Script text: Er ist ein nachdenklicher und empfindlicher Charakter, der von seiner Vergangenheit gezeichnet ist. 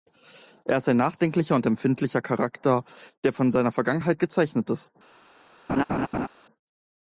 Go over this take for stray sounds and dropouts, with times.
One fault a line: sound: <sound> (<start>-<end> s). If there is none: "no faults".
sound: laugh (5.7-6.3 s)